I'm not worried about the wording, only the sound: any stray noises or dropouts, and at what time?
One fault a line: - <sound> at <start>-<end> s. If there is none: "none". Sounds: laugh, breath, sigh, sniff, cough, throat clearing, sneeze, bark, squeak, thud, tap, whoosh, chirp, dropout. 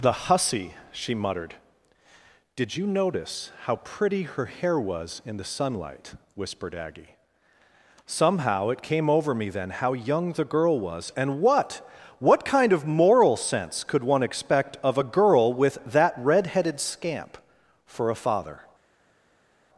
none